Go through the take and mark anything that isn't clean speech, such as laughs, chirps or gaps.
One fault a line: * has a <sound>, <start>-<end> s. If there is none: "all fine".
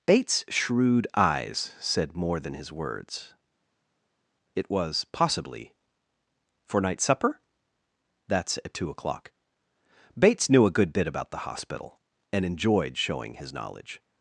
all fine